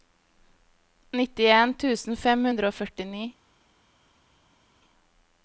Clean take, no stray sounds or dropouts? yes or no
yes